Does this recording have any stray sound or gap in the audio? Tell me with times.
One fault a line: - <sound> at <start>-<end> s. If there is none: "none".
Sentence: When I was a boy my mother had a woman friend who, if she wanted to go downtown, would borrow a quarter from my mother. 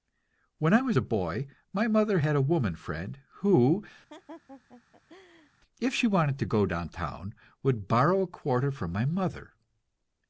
- laugh at 4.1-5.5 s